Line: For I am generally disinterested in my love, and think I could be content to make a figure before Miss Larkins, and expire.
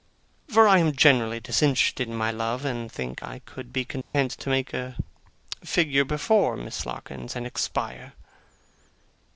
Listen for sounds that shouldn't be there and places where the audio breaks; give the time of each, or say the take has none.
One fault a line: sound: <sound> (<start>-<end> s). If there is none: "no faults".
sound: dropout (4.0-4.1 s)